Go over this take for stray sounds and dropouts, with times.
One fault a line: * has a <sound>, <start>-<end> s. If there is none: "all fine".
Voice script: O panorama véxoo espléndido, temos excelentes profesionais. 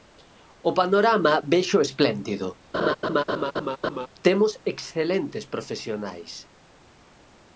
* has a laugh, 2.7-4.1 s